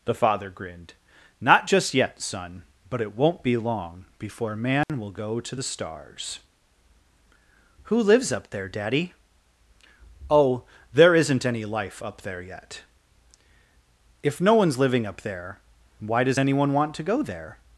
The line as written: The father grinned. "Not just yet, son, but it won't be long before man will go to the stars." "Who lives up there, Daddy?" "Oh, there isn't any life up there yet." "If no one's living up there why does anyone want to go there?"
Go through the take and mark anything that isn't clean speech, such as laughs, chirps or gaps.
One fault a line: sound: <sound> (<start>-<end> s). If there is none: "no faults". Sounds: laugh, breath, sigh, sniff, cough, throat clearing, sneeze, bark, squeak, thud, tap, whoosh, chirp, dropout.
sound: dropout (4.8-4.9 s)